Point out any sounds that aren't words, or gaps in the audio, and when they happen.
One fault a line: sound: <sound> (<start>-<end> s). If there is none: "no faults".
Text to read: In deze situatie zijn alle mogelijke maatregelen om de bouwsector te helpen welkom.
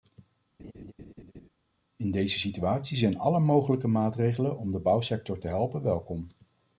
sound: laugh (0.6-1.5 s)